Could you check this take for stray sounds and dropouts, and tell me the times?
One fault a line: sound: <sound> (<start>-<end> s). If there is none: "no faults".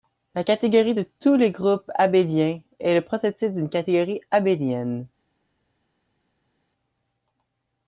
no faults